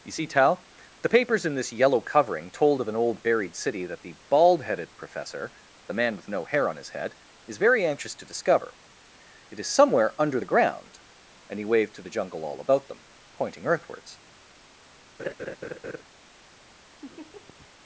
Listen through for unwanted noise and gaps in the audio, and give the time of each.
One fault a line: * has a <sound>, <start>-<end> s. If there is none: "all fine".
* has a laugh, 15.2-16.0 s
* has a laugh, 17.0-17.7 s